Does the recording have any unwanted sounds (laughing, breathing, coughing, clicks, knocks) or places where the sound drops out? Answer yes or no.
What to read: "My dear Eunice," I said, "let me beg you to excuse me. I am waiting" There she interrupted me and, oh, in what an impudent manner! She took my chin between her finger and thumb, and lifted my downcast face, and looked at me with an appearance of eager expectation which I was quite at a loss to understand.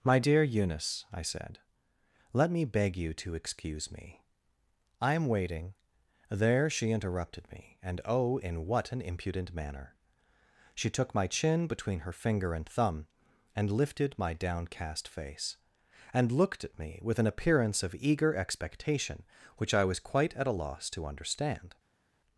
no